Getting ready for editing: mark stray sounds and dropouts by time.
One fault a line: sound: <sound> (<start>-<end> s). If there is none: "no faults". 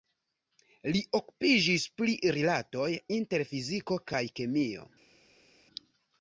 no faults